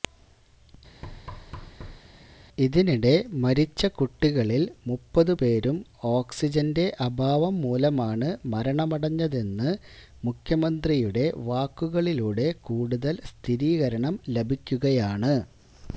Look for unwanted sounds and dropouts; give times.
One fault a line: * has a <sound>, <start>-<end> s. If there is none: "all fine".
* has a thud, 1.0-2.0 s